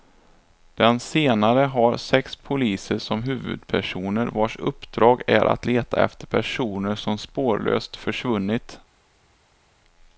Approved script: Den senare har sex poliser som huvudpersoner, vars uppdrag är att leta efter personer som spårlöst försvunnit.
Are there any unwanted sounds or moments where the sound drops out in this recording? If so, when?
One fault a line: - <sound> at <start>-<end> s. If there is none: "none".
none